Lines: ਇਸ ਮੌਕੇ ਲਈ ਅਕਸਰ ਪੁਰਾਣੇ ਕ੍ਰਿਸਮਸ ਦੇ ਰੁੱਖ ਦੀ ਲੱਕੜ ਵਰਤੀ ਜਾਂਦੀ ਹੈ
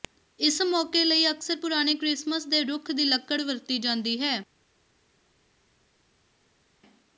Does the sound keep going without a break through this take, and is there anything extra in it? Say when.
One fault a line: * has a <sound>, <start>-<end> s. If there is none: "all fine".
all fine